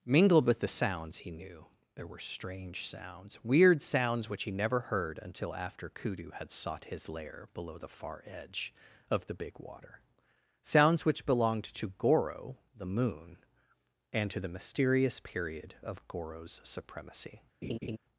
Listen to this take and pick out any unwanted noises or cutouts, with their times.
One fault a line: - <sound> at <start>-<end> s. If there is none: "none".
- laugh at 17.6-18.0 s